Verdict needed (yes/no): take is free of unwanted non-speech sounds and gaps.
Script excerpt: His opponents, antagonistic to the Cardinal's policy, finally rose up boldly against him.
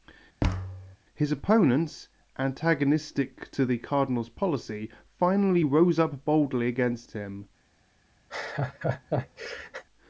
no